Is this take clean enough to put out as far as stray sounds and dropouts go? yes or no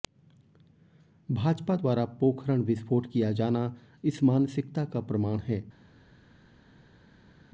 yes